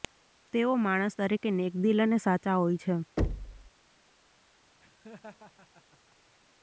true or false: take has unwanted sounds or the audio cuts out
true